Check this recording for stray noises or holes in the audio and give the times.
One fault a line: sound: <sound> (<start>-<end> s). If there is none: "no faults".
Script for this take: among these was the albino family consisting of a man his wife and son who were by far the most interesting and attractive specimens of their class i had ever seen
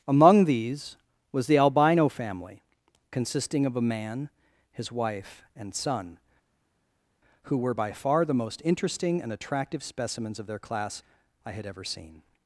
no faults